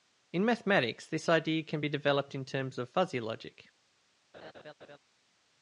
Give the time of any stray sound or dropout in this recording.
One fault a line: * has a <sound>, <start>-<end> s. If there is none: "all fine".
* has a laugh, 4.3-5.0 s